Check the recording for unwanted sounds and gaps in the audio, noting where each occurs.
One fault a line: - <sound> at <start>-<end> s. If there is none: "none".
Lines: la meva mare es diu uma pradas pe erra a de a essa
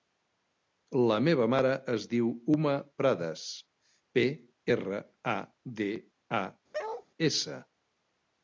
- bark at 6.7-7.1 s